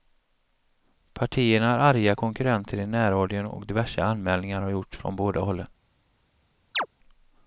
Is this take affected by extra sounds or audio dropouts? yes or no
yes